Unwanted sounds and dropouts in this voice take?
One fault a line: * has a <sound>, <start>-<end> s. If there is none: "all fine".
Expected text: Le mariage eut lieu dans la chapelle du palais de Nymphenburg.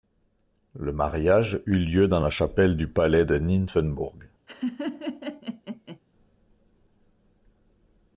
* has a laugh, 4.5-6.0 s